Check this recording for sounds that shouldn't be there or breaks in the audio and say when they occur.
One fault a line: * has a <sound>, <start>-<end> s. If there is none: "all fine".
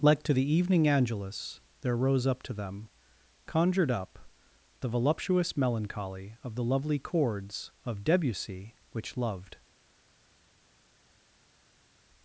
all fine